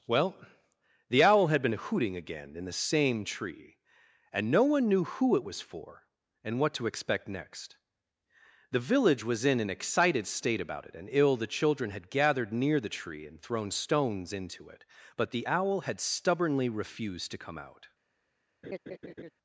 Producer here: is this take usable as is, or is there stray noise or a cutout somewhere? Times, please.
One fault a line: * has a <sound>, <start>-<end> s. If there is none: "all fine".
* has a laugh, 18.6-19.3 s